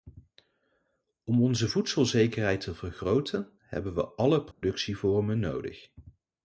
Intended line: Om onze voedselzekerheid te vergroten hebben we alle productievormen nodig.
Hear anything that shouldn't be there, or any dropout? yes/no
yes